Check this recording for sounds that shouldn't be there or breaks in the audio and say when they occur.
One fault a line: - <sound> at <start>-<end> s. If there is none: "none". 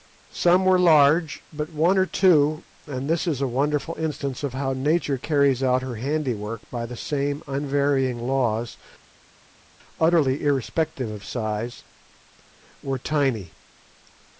none